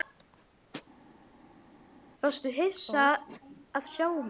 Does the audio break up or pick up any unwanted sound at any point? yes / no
no